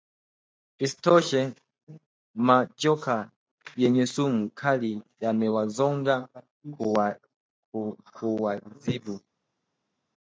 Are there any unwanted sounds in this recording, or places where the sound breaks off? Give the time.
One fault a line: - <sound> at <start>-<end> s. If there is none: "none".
none